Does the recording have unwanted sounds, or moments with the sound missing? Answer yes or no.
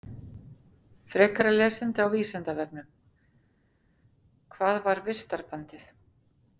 no